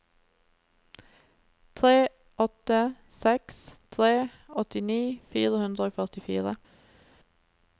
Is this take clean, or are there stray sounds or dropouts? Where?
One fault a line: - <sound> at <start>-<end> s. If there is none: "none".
none